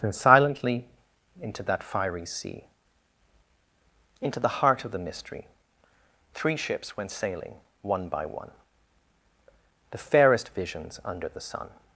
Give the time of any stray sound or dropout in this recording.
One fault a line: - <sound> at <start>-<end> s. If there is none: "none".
none